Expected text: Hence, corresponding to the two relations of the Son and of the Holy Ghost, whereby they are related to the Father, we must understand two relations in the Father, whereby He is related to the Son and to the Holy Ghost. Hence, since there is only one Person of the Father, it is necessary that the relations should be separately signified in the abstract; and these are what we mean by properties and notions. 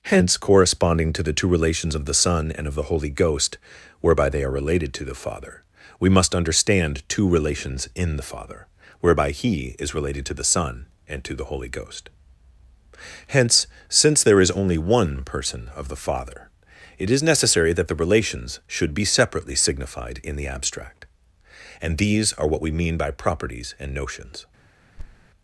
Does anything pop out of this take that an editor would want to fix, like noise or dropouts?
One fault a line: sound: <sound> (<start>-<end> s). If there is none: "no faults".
sound: thud (25.0-25.3 s)